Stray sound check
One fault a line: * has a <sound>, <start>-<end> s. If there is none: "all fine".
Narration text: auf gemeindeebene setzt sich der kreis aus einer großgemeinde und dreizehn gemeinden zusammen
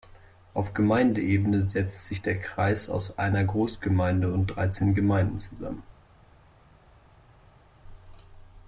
all fine